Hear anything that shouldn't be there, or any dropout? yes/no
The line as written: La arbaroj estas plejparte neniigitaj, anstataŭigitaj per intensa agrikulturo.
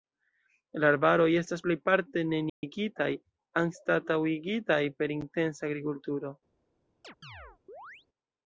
yes